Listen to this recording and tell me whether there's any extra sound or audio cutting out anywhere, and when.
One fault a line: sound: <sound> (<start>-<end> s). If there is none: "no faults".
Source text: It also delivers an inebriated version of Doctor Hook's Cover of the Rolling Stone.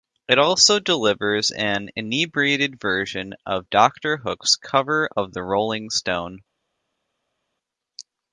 no faults